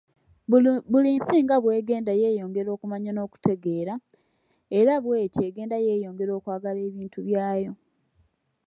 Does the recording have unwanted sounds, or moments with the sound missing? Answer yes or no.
no